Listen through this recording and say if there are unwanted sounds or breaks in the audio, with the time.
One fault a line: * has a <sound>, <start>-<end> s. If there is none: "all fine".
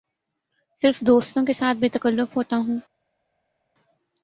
all fine